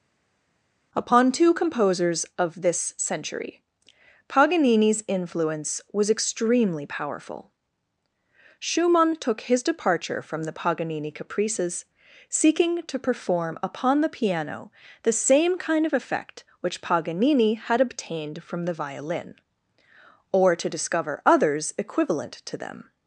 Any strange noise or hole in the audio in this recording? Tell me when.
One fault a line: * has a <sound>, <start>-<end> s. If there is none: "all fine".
all fine